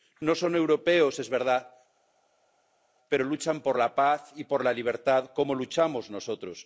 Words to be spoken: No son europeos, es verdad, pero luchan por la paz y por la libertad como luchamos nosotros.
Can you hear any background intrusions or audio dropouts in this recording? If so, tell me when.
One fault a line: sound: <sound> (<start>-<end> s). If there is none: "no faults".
no faults